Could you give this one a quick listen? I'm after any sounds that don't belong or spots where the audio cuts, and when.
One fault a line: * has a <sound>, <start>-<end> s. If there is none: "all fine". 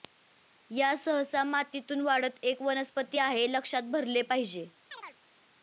* has a chirp, 4.9-5.2 s